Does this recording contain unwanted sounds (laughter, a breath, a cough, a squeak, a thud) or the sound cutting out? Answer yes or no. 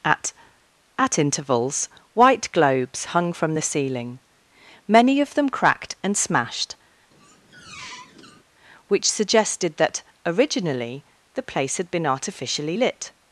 yes